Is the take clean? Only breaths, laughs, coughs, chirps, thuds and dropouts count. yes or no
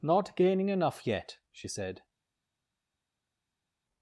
yes